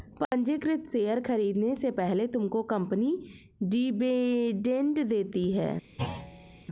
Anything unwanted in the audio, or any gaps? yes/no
yes